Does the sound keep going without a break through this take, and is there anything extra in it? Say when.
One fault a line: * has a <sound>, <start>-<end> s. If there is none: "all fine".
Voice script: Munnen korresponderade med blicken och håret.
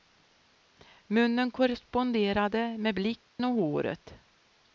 * has a dropout, 3.3-3.4 s